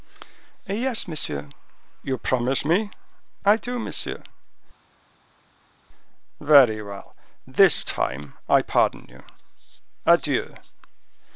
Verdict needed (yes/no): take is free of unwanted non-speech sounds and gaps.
yes